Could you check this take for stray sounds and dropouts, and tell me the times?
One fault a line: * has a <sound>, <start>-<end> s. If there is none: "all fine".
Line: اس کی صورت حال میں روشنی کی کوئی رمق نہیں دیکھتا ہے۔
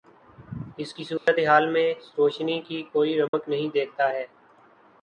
* has a dropout, 1.2-1.3 s
* has a dropout, 3.3-3.3 s